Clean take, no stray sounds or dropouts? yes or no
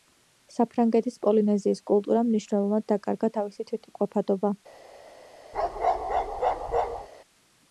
no